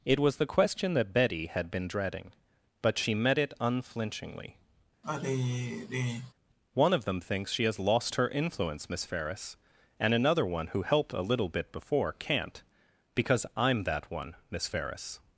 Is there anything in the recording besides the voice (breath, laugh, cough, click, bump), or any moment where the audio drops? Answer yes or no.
yes